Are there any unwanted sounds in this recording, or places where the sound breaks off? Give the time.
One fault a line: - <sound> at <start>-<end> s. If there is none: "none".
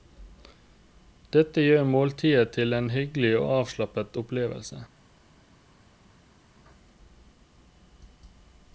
none